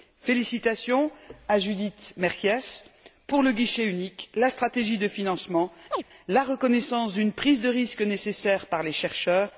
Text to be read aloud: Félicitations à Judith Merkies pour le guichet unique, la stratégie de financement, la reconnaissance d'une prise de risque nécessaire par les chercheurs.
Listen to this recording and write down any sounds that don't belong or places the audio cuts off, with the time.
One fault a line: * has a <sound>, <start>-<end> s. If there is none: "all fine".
* has a chirp, 5.9-6.0 s